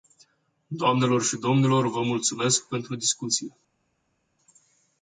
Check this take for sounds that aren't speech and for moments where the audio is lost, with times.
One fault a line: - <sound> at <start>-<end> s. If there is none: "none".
none